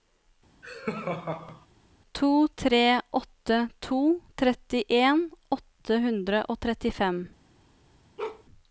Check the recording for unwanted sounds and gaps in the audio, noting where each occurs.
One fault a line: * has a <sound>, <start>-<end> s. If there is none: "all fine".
* has a laugh, 0.6-1.7 s
* has a bark, 8.2-8.4 s